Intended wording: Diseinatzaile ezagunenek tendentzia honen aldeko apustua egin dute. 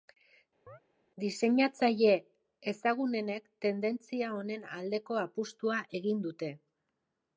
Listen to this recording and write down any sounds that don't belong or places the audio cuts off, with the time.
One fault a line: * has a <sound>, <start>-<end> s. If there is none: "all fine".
* has a chirp, 0.7-0.8 s